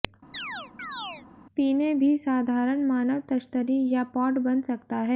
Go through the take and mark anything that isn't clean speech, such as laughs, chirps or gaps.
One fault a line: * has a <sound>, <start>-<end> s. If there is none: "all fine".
* has a chirp, 0.3-1.3 s